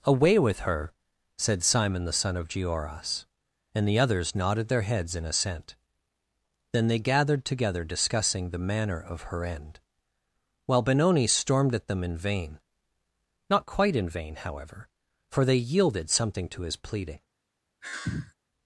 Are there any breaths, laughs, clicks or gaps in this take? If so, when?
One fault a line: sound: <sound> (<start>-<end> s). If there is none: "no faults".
sound: sigh (17.8-18.3 s)